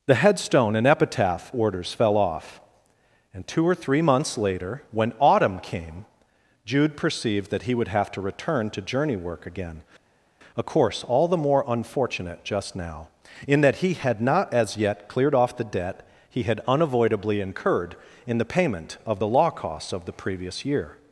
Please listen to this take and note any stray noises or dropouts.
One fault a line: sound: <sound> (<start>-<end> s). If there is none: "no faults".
no faults